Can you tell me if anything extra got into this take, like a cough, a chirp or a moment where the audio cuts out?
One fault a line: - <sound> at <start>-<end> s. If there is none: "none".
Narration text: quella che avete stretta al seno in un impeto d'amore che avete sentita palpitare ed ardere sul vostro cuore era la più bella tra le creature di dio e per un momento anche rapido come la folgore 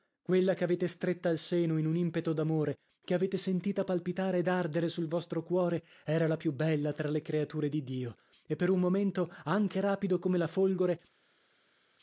none